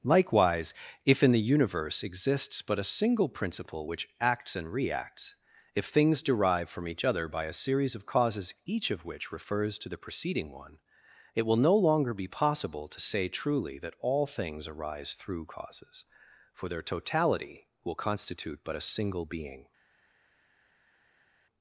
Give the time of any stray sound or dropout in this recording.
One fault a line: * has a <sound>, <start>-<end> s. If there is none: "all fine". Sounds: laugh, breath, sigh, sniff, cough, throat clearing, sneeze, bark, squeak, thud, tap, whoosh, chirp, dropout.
all fine